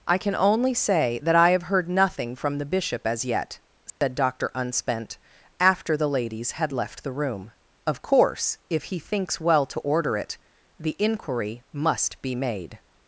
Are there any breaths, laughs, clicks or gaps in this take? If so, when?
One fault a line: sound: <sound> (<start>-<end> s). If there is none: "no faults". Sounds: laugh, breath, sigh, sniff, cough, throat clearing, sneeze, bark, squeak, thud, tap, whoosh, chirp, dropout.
sound: dropout (3.9-4.0 s)